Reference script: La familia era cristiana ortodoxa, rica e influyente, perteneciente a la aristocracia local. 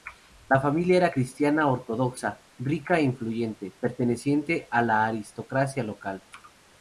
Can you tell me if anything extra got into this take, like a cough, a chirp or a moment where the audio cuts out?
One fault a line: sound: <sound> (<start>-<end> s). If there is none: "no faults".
no faults